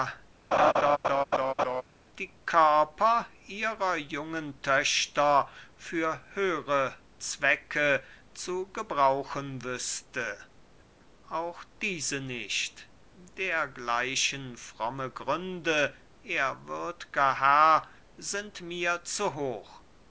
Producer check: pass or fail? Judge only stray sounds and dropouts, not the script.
fail